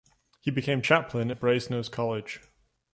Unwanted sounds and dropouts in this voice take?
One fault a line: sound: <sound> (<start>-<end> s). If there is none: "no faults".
no faults